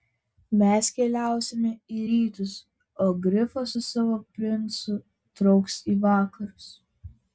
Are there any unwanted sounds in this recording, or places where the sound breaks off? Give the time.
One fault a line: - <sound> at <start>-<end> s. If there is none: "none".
none